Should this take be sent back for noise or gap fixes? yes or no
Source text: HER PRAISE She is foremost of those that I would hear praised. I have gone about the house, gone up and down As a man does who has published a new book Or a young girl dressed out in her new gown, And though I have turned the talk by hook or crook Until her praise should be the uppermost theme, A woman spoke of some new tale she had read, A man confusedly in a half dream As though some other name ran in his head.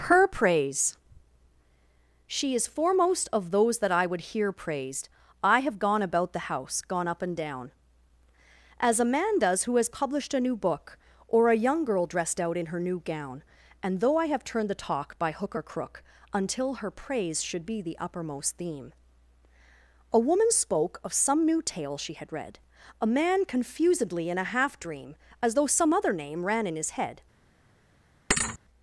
yes